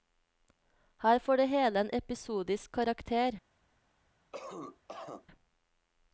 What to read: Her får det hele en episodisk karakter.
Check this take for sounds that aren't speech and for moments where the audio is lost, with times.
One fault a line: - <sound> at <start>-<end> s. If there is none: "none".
- cough at 4.3-5.3 s